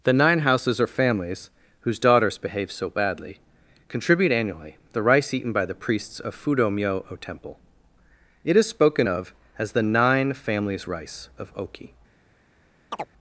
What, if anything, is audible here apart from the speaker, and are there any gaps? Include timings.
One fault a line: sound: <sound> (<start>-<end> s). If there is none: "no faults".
sound: chirp (12.9-13.1 s)